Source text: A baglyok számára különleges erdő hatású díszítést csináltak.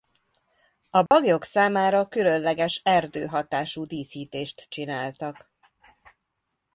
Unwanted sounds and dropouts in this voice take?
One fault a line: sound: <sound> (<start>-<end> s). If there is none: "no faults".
sound: dropout (1.1-1.1 s)